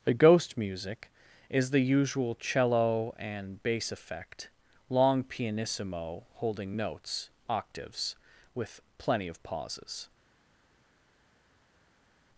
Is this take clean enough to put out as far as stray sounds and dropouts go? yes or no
yes